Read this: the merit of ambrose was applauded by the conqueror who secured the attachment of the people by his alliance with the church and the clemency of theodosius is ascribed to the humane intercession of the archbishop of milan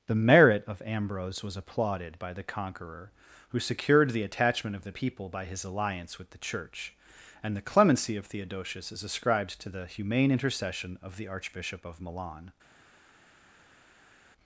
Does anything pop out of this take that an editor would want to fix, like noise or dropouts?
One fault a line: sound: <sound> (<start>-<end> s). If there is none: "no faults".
no faults